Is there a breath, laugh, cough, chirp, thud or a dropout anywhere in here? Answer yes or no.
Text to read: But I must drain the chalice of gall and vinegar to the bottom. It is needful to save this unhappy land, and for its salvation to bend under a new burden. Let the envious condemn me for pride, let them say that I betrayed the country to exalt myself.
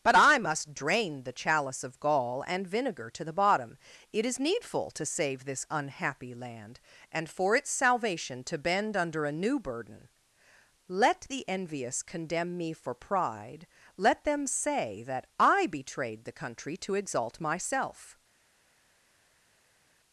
no